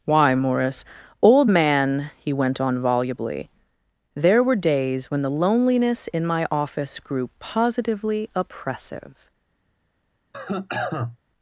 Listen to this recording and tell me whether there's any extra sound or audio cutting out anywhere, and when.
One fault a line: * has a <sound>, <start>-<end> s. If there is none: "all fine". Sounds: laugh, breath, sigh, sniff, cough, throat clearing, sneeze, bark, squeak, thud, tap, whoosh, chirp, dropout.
* has a cough, 10.3-11.2 s